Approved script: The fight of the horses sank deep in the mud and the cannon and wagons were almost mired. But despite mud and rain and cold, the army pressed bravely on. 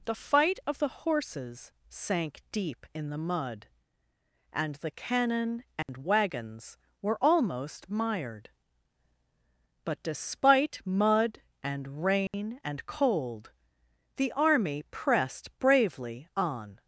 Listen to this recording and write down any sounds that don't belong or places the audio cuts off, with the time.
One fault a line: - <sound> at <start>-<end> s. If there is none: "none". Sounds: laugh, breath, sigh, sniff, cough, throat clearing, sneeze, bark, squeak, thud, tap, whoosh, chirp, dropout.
- dropout at 5.8-5.9 s
- dropout at 12.3-12.3 s